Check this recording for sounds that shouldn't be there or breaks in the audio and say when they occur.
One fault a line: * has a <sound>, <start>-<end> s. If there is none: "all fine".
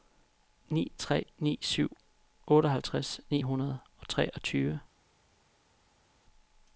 all fine